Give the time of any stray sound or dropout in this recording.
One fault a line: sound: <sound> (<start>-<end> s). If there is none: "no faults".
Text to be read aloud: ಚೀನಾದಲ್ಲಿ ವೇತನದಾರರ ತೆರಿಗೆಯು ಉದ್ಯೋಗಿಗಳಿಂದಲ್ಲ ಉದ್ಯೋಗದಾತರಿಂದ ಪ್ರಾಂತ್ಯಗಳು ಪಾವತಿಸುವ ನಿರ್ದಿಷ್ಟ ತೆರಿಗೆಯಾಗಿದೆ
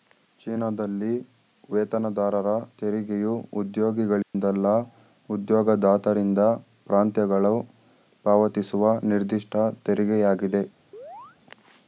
sound: dropout (4.2-4.3 s)
sound: chirp (10.9-11.4 s)